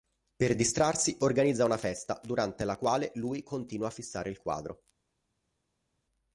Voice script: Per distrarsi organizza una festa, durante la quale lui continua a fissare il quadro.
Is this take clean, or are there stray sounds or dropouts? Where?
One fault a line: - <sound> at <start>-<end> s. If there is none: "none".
none